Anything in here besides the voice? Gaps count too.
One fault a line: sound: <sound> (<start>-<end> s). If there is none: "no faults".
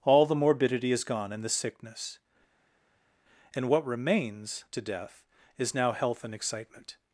no faults